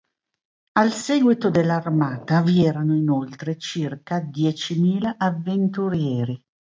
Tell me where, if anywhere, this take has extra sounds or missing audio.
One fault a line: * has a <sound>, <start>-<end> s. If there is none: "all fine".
all fine